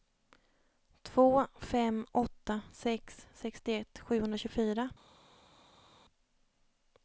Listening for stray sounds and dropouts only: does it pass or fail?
pass